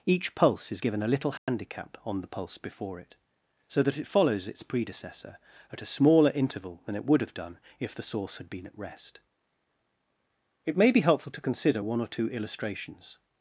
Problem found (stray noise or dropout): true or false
true